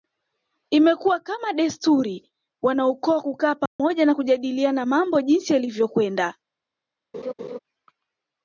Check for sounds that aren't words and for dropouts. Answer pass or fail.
fail